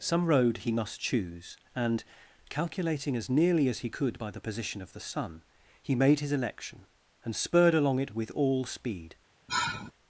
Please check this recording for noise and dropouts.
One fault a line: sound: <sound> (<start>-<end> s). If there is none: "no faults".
sound: sigh (9.5-9.9 s)